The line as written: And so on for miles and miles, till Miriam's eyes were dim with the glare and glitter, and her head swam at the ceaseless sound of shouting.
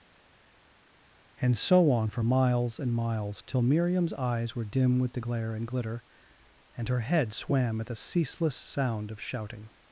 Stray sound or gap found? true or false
false